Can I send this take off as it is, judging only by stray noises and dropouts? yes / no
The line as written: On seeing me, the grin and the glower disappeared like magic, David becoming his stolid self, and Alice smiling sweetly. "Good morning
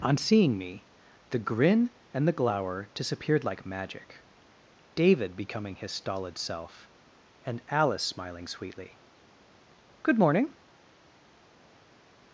yes